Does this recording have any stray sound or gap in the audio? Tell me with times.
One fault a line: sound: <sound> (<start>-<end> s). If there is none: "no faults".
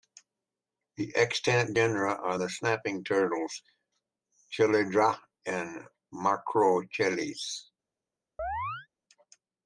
sound: chirp (8.4-8.9 s)